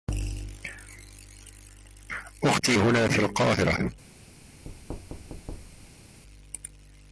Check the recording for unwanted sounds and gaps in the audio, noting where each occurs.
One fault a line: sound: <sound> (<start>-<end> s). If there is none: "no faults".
sound: thud (4.7-6.2 s)